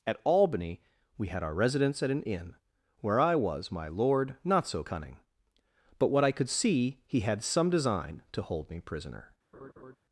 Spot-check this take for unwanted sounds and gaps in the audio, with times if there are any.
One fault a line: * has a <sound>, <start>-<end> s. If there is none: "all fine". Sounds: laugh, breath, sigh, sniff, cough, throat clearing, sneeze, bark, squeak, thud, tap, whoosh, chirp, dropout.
* has a laugh, 9.5-10.0 s